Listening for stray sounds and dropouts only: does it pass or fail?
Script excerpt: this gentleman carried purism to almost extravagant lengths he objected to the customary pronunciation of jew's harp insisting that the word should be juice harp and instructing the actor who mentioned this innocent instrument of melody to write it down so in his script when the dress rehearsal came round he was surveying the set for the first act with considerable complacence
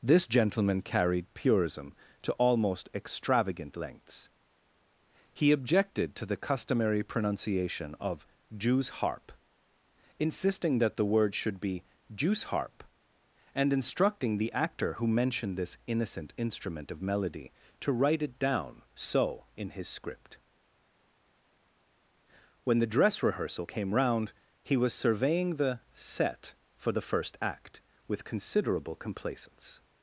pass